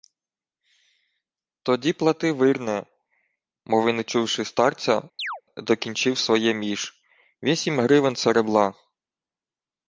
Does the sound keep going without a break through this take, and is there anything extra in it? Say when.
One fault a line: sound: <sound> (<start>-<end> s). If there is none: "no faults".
sound: chirp (5.2-5.4 s)